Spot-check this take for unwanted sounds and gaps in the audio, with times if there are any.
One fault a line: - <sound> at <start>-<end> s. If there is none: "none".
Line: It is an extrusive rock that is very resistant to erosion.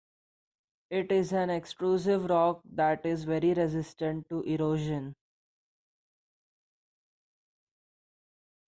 none